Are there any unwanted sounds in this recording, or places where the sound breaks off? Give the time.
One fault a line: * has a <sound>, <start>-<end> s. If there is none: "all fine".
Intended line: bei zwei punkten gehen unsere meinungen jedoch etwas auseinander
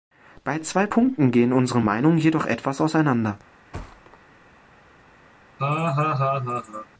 * has a thud, 3.7-4.2 s
* has a laugh, 5.6-6.9 s